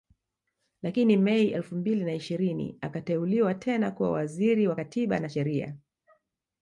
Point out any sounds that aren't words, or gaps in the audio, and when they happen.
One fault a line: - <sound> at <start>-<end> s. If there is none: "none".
none